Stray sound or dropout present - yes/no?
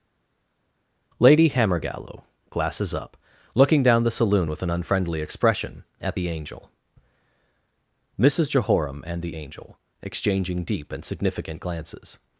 no